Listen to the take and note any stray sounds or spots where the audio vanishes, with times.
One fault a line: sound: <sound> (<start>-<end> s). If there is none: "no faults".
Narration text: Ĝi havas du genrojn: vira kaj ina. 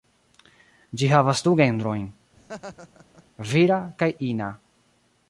sound: laugh (2.4-3.2 s)